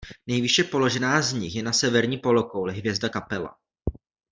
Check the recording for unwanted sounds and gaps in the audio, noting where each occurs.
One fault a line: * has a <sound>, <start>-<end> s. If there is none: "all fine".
all fine